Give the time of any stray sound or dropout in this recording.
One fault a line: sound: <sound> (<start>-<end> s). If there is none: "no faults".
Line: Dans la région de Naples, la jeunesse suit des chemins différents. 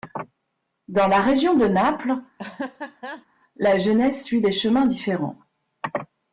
sound: laugh (2.4-3.3 s)